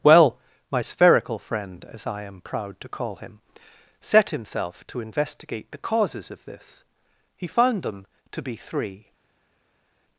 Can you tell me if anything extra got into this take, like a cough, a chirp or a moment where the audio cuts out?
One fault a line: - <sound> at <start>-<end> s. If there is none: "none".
none